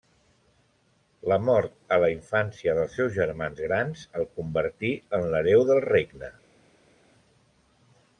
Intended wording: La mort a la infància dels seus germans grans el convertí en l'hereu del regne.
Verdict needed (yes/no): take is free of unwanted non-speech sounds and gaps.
yes